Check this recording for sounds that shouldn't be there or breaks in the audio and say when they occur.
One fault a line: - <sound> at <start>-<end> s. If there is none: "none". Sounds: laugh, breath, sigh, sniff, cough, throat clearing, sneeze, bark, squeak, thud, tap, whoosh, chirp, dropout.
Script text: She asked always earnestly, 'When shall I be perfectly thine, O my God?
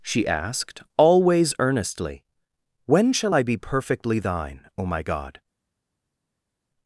none